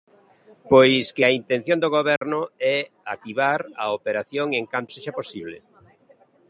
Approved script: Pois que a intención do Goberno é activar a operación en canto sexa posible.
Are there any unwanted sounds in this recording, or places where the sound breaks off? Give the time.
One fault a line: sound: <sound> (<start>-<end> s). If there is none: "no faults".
sound: dropout (2.2-2.2 s)